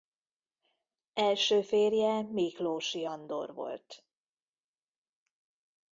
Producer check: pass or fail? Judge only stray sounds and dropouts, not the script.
pass